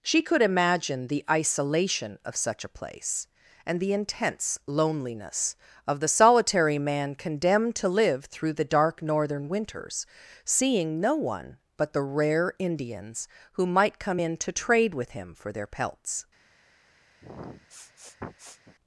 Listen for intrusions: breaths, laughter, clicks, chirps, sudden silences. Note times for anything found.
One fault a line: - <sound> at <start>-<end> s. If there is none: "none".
- sniff at 17.2-18.8 s